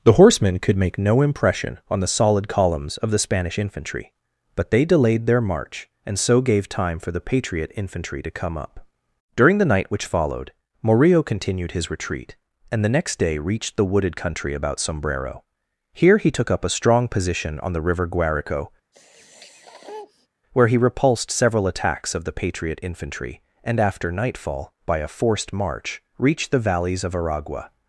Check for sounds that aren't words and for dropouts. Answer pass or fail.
fail